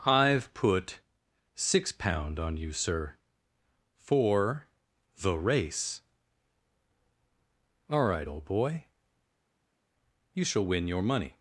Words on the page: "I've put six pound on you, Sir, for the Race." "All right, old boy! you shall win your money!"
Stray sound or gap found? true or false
false